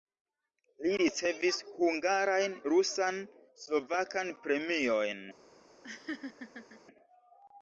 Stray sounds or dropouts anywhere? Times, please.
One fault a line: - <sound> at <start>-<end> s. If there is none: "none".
- laugh at 5.8-6.8 s